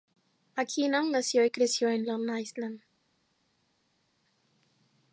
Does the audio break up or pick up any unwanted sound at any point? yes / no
no